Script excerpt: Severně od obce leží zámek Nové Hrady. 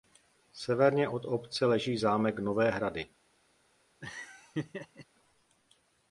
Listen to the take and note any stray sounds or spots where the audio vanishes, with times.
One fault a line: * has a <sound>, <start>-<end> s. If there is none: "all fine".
* has a laugh, 4.0-5.1 s